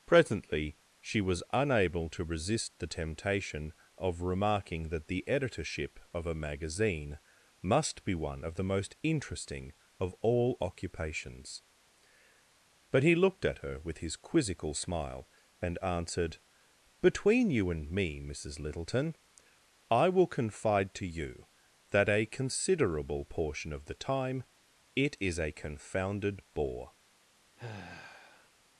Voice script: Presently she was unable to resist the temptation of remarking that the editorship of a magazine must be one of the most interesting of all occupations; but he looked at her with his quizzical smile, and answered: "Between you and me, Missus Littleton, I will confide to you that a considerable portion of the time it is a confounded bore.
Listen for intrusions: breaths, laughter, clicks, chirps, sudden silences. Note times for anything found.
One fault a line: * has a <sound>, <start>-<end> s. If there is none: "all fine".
* has a sigh, 27.6-28.5 s